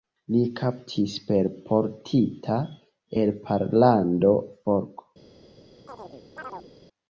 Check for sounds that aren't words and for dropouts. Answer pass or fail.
fail